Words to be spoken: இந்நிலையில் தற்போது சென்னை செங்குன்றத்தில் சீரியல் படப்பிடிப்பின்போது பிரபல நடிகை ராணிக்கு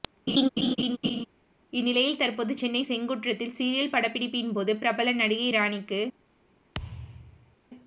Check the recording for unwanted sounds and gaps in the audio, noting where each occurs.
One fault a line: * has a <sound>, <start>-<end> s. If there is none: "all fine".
* has a laugh, 0.3-1.3 s
* has a thud, 6.7-7.6 s